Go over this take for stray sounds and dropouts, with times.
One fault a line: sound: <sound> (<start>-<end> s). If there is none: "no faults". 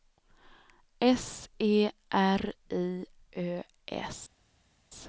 no faults